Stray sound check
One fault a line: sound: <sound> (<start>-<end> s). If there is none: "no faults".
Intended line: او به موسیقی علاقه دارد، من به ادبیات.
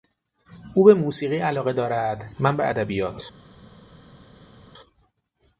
no faults